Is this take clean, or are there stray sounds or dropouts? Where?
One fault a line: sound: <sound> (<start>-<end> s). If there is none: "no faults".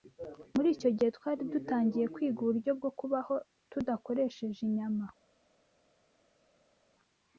no faults